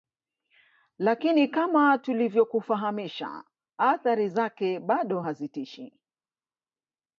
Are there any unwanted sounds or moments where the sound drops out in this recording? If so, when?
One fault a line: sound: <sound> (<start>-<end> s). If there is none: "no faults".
no faults